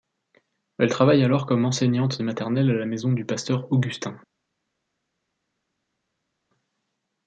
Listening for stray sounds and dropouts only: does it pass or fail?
pass